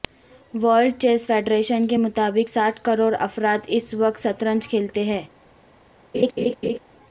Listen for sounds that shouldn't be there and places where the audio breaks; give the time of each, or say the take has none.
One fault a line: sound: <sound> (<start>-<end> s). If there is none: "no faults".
sound: laugh (6.1-6.8 s)